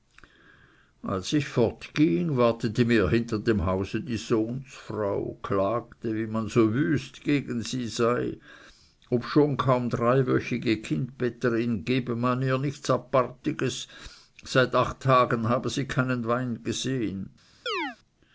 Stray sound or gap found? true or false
true